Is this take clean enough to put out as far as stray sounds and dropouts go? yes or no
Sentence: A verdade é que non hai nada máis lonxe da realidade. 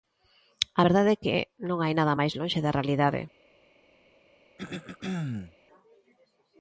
no